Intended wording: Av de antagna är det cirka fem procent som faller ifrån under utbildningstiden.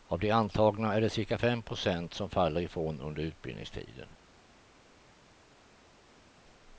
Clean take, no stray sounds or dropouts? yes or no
yes